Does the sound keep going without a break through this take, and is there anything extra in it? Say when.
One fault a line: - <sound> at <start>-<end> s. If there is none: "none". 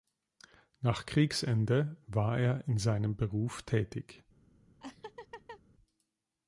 - laugh at 4.8-5.6 s